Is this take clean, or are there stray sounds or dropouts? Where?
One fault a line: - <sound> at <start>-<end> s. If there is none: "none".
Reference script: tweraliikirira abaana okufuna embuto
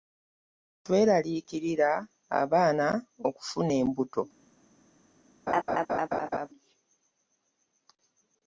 - laugh at 5.5-6.5 s